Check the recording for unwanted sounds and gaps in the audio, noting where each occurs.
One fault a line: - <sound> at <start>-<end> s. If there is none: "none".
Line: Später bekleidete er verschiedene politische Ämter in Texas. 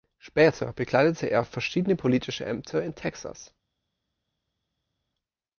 none